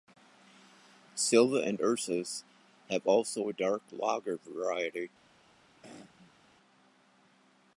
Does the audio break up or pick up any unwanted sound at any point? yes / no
yes